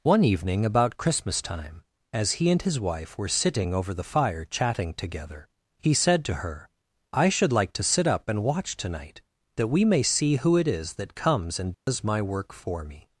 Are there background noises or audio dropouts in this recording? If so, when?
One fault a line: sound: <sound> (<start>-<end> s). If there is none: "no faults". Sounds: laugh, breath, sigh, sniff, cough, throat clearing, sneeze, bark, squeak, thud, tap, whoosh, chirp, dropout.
sound: dropout (11.7-11.9 s)